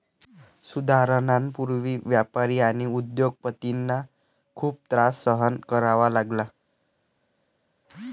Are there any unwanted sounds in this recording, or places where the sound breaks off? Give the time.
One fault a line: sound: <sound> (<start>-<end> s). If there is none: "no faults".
no faults